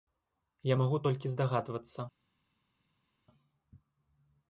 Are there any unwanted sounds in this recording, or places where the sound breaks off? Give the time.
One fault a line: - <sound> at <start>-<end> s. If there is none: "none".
none